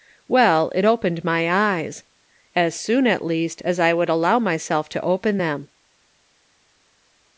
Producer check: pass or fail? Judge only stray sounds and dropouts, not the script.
pass